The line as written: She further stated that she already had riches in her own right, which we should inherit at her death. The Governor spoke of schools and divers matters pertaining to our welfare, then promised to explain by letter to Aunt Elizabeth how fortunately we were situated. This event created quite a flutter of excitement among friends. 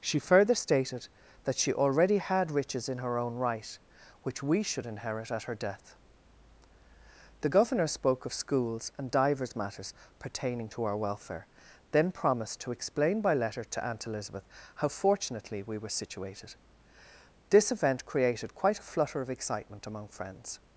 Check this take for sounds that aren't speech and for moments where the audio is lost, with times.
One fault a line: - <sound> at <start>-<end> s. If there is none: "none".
none